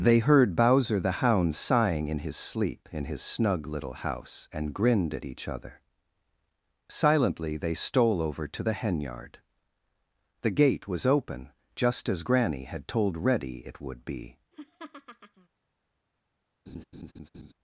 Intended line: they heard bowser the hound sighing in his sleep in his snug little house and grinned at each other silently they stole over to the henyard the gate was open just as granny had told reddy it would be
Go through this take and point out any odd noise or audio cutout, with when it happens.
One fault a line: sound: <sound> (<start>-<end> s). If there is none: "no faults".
sound: laugh (14.5-15.5 s)
sound: laugh (16.7-17.5 s)